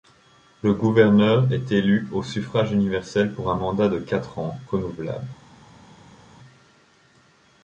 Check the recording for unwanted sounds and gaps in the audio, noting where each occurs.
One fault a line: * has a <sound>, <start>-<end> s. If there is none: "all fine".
all fine